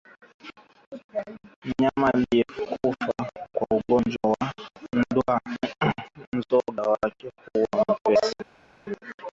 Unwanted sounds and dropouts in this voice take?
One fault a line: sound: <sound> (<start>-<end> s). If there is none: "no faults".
no faults